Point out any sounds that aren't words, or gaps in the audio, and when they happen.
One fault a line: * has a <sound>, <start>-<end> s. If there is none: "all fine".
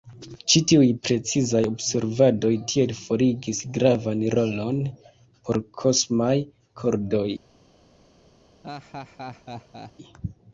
* has a laugh, 8.6-9.9 s